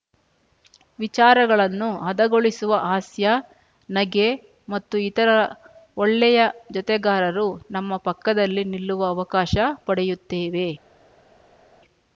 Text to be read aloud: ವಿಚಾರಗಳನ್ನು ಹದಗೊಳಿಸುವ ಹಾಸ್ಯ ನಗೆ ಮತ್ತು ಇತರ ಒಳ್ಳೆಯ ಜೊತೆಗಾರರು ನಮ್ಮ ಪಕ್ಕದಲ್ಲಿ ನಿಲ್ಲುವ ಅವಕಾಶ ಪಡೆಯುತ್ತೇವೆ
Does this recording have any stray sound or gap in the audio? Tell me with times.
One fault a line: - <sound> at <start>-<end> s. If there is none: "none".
none